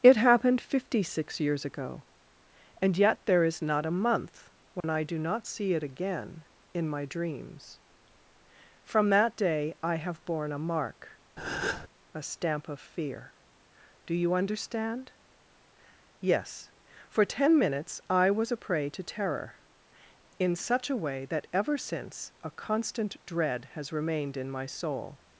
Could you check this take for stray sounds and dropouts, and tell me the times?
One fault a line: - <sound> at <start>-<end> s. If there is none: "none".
- dropout at 4.8-4.8 s
- breath at 11.4-11.9 s